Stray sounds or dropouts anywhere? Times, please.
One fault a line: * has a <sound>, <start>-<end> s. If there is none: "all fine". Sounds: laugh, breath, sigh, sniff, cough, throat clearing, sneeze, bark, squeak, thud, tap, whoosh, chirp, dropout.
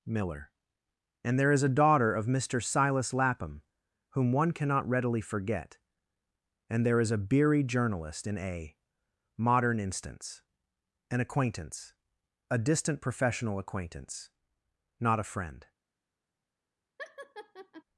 * has a laugh, 17.0-17.8 s